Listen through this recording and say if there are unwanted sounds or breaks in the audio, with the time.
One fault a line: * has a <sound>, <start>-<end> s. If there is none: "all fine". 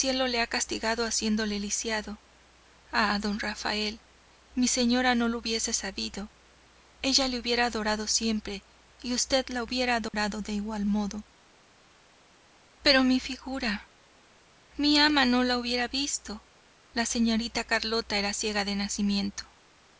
* has a dropout, 10.1-10.1 s